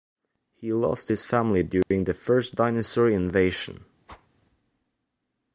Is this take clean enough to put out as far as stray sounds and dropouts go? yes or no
no